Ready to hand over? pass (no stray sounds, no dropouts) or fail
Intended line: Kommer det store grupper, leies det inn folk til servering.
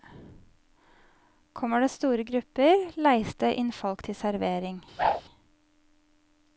fail